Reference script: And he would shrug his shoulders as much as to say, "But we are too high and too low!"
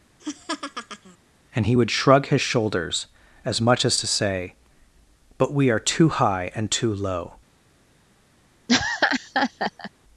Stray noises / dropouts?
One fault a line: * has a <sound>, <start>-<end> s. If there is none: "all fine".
* has a laugh, 0.2-1.2 s
* has a laugh, 8.7-9.9 s